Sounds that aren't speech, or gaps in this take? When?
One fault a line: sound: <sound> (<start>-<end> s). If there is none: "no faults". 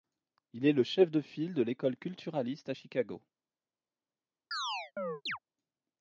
sound: chirp (4.5-5.4 s)